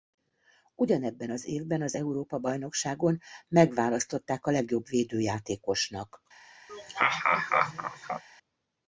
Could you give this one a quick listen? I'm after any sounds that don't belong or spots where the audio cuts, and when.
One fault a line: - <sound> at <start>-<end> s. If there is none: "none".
- laugh at 6.7-8.2 s